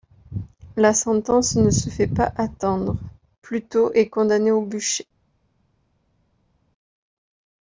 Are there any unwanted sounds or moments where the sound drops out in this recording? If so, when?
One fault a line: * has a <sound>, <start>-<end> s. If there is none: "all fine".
all fine